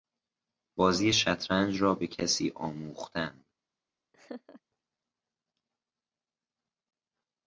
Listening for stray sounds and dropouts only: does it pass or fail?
fail